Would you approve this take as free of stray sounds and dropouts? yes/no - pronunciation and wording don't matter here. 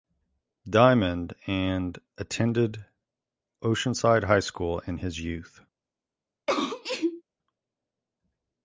no